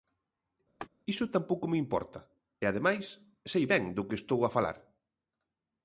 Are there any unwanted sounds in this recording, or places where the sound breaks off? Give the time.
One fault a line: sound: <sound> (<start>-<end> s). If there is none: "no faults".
sound: laugh (0.8-0.9 s)